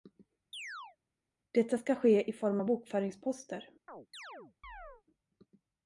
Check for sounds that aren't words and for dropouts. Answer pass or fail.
fail